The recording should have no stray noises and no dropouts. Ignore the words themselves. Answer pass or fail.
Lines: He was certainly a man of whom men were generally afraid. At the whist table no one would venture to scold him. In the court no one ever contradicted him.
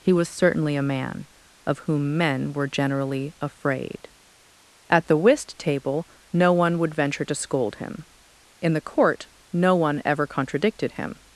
pass